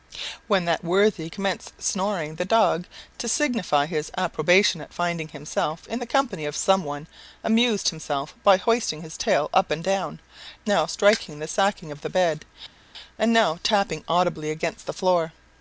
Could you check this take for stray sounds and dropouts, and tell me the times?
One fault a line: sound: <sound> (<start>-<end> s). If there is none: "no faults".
no faults